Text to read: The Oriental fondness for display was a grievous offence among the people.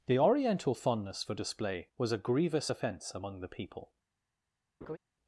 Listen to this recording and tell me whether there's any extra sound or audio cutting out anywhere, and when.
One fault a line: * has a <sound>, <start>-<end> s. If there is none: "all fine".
* has a laugh, 4.8-5.0 s